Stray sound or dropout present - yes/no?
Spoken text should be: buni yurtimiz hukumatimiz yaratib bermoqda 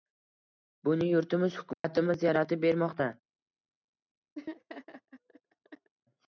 yes